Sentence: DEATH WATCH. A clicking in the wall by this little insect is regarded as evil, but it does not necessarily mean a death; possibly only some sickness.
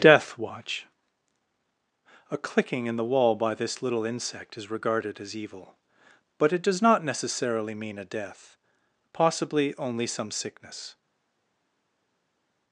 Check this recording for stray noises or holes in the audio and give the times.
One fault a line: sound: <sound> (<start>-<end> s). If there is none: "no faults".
no faults